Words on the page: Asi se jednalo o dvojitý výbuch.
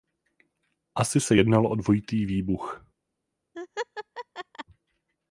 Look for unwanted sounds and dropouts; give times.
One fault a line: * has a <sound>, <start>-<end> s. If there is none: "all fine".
* has a laugh, 3.5-4.6 s